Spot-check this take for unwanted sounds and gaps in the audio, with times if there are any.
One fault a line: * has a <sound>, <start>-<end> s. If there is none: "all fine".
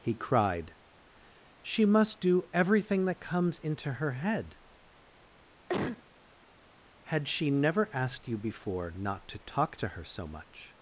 * has a cough, 5.7-6.0 s